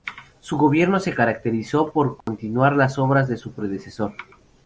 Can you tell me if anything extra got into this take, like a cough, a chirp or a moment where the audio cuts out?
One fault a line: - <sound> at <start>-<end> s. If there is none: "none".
- dropout at 2.2-2.3 s